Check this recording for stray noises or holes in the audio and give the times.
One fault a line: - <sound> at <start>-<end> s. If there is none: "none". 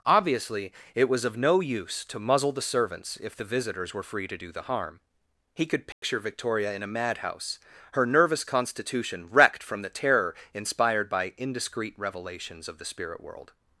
- dropout at 5.9-6.0 s